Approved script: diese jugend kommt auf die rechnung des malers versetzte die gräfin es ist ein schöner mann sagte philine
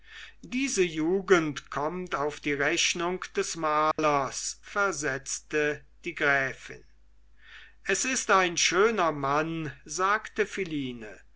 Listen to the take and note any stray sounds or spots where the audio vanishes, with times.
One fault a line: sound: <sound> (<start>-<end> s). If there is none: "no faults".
sound: dropout (3.9-4.0 s)